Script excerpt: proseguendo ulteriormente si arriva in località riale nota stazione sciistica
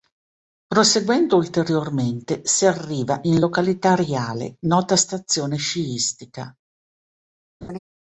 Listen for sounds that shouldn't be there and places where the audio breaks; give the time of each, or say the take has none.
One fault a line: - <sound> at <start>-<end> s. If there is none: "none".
- laugh at 7.6-7.8 s